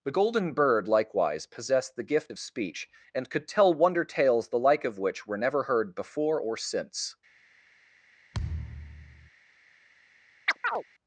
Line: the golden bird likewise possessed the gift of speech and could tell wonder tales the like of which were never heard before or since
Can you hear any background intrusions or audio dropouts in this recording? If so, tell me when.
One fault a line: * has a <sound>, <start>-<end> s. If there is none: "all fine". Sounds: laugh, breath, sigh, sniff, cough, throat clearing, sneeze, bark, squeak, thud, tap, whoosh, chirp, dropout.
* has a thud, 8.3-9.3 s
* has a chirp, 10.5-10.8 s